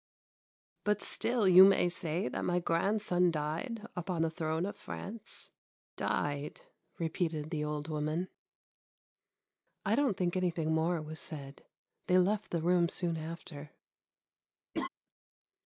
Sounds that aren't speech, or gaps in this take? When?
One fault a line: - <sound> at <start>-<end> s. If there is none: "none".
- laugh at 14.7-14.9 s